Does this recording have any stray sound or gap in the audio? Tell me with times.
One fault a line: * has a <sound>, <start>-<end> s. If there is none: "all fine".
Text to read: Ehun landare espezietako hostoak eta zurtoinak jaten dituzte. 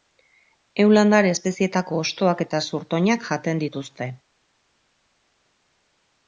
all fine